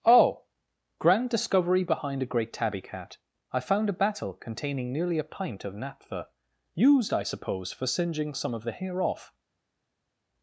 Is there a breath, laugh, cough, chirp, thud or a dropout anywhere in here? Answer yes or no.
no